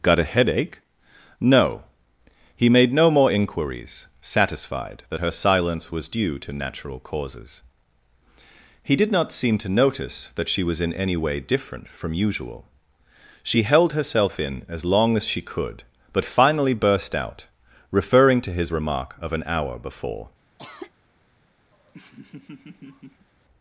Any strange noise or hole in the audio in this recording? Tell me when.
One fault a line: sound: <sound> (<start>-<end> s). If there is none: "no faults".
sound: cough (20.6-20.9 s)
sound: laugh (21.7-23.3 s)